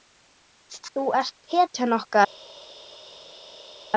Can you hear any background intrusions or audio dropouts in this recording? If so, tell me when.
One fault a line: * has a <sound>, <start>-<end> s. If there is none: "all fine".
all fine